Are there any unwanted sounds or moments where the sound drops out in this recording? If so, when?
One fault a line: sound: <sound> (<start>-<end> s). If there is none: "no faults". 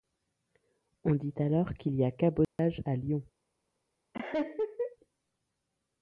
sound: dropout (2.4-2.6 s)
sound: laugh (4.1-5.0 s)